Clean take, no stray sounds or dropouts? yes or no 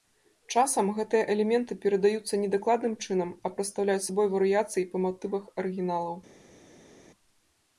yes